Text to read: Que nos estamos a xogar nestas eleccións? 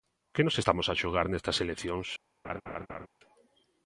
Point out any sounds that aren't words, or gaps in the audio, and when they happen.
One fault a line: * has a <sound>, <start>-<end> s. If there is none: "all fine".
* has a laugh, 2.4-3.1 s